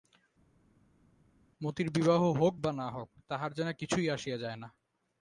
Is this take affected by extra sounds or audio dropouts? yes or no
no